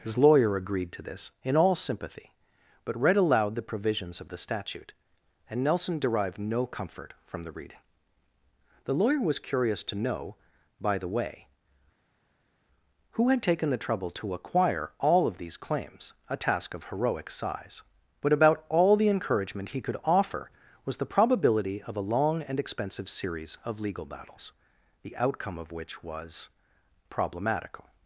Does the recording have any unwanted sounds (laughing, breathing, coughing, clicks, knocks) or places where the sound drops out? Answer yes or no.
no